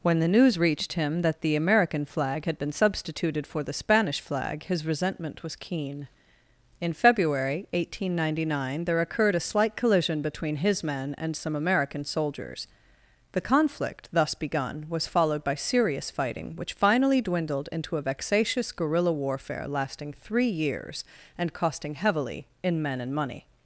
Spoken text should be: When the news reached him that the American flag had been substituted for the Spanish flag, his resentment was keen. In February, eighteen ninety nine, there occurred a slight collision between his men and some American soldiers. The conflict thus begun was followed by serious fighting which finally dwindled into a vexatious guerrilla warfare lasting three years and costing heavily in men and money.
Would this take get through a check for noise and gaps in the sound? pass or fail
pass